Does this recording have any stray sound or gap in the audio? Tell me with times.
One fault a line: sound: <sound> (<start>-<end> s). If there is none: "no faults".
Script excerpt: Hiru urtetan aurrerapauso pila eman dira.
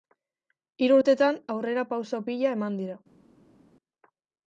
no faults